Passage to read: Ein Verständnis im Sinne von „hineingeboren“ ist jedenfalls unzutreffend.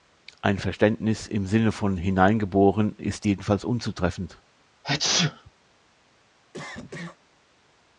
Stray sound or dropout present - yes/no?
yes